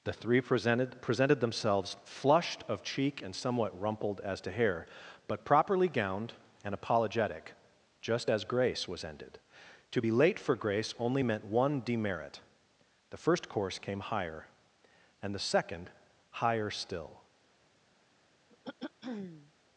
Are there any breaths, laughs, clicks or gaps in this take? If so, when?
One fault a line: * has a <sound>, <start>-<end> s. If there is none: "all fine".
* has a throat clearing, 18.5-19.5 s